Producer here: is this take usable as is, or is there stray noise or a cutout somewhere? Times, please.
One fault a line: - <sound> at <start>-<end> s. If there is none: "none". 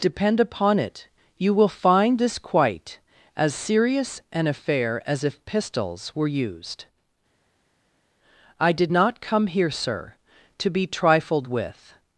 none